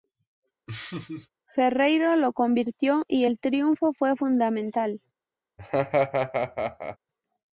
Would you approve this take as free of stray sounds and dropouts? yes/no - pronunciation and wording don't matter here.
no